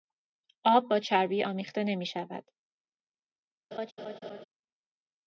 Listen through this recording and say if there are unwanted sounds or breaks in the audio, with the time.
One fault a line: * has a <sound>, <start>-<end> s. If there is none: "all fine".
* has a laugh, 3.7-4.4 s